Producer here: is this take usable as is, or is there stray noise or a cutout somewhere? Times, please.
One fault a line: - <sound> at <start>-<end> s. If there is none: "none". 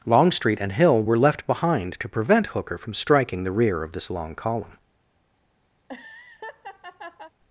- laugh at 5.8-7.3 s